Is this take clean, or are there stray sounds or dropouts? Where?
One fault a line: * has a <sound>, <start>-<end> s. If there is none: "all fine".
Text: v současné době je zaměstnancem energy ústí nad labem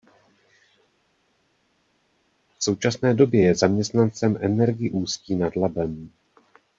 all fine